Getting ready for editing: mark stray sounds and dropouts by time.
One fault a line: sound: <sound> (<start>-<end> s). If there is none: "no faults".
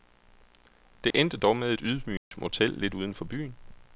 sound: dropout (1.1-1.1 s)
sound: dropout (2.2-2.3 s)